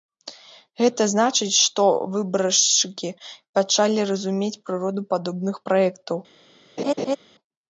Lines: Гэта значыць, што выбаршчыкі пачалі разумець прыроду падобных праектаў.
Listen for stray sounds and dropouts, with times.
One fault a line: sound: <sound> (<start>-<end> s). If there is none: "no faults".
sound: laugh (6.8-7.2 s)